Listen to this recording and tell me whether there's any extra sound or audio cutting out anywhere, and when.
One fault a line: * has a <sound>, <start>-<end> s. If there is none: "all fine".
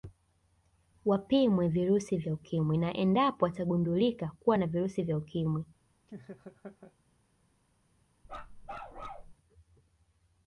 * has a laugh, 6.1-6.9 s
* has a bark, 8.2-9.3 s